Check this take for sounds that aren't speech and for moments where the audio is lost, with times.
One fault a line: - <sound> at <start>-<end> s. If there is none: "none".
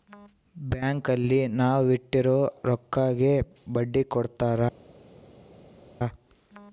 none